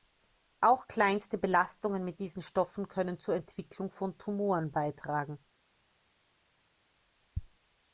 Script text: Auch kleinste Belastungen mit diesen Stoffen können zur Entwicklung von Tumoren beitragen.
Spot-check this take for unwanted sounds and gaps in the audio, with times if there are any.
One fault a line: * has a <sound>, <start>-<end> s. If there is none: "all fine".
all fine